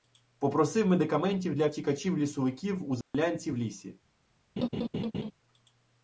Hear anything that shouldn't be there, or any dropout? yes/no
yes